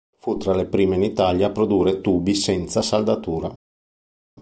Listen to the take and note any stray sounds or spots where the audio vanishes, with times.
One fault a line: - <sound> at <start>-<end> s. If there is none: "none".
none